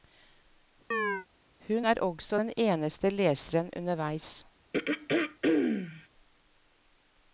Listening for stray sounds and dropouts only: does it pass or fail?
fail